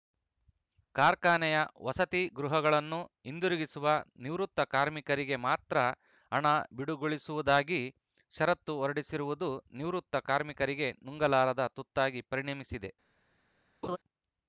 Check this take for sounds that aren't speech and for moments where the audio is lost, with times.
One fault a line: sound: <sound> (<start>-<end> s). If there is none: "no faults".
sound: laugh (13.8-14.0 s)